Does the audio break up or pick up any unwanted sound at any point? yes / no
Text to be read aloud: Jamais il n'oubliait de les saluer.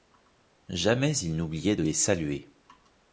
no